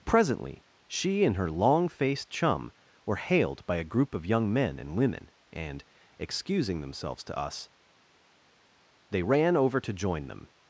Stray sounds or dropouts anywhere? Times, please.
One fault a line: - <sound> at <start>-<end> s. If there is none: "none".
none